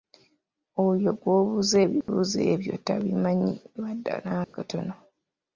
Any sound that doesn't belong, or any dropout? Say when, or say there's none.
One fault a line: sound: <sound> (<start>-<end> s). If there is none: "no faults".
sound: dropout (2.0-2.1 s)
sound: dropout (4.4-4.5 s)